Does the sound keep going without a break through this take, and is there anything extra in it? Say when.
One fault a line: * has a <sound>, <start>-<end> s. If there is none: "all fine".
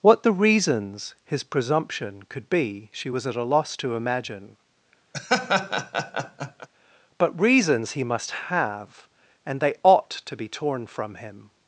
* has a laugh, 5.1-6.7 s